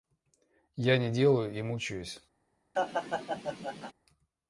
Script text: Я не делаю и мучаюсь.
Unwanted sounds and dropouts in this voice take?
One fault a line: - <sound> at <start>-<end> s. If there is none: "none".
- laugh at 2.8-3.9 s